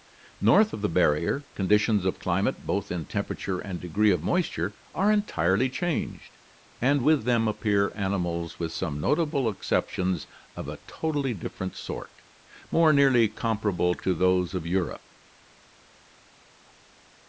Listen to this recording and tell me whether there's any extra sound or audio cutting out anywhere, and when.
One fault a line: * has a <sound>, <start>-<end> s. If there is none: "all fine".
all fine